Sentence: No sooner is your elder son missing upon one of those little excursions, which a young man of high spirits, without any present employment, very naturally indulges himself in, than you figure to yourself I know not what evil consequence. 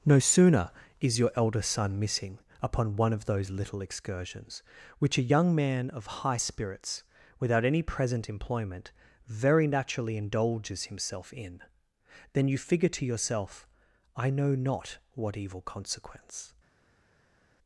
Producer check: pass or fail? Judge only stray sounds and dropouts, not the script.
pass